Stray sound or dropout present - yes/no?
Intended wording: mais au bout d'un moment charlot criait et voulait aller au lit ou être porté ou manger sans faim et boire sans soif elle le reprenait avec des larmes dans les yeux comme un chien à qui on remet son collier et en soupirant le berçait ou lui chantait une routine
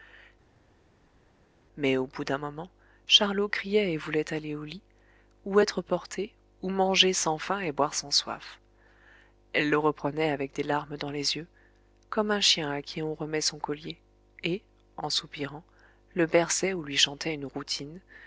no